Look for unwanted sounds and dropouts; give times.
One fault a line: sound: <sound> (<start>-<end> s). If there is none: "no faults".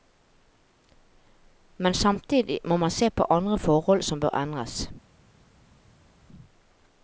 no faults